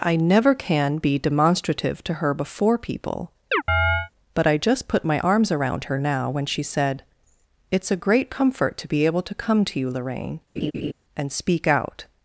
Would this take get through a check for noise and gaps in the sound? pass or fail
fail